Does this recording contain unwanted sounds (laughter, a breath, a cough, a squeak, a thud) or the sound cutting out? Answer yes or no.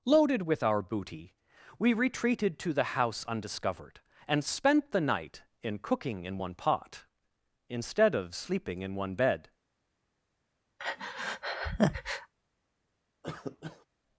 yes